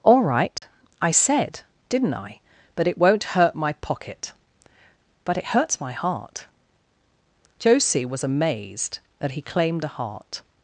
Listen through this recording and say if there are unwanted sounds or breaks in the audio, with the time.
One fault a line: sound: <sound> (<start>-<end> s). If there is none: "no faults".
sound: dropout (0.6-0.6 s)